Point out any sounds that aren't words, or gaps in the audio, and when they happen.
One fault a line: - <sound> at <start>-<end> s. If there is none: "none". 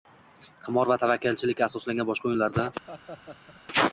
- laugh at 2.9-3.6 s